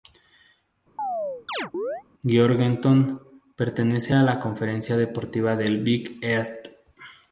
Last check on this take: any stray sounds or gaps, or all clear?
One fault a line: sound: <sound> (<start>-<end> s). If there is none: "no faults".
sound: chirp (1.0-2.0 s)